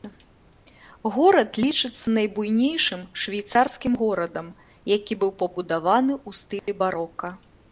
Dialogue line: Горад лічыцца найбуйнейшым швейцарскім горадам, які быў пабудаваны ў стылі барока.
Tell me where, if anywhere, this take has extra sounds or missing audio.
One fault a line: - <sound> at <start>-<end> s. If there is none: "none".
- dropout at 6.6-6.7 s